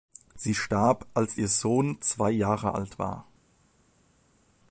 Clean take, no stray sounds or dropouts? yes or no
yes